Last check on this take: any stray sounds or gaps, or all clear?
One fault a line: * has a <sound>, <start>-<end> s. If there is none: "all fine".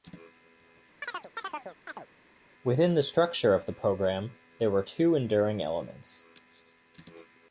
* has a chirp, 1.0-2.1 s